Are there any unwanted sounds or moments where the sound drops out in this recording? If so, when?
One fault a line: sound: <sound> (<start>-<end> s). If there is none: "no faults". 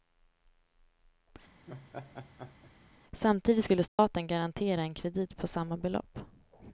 sound: laugh (1.7-2.7 s)
sound: dropout (3.9-4.0 s)